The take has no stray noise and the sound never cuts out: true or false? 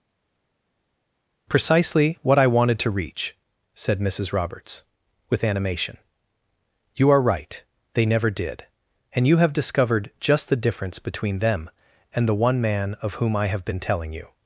true